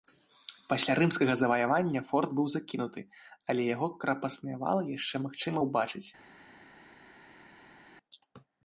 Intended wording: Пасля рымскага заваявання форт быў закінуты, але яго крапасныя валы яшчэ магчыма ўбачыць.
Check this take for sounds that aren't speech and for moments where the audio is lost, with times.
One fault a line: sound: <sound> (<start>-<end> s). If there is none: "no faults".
no faults